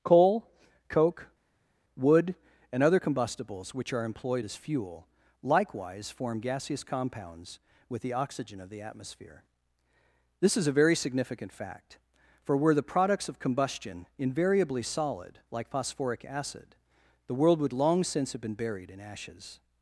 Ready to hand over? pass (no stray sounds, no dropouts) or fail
pass